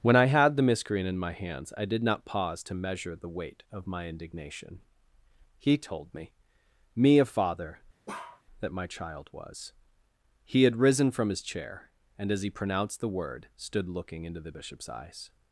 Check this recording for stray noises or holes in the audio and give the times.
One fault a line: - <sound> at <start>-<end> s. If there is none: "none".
- bark at 8.1-8.4 s